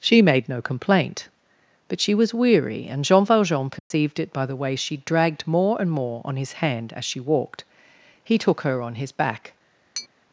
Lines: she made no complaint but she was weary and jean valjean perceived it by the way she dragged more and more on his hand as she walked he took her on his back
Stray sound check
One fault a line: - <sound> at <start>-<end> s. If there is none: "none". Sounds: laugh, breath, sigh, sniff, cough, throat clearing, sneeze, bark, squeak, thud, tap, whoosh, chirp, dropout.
- dropout at 3.8-3.9 s
- tap at 10.0-10.1 s